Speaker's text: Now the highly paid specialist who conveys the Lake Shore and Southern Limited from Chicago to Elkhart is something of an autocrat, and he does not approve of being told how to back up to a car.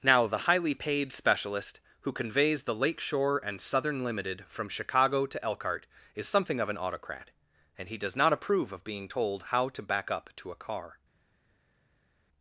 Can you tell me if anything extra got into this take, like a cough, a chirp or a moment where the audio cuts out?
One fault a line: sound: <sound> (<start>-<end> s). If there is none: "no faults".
no faults